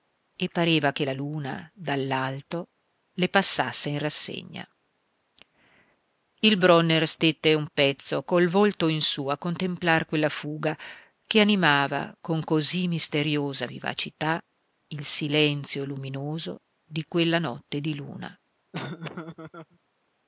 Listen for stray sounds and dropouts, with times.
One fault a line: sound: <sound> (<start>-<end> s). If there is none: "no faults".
sound: laugh (18.7-19.8 s)